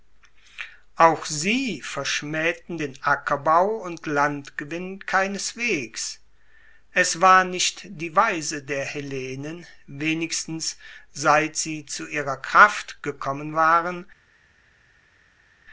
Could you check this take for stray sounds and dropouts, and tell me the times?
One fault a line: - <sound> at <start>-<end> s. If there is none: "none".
none